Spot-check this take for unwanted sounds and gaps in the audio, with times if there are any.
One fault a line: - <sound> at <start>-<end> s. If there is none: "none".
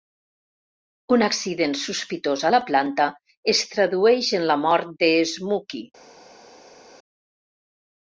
none